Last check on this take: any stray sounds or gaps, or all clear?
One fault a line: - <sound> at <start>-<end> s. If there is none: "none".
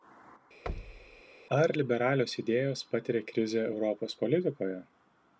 - thud at 0.7-1.2 s